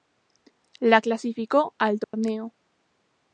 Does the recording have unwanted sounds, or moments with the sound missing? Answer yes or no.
yes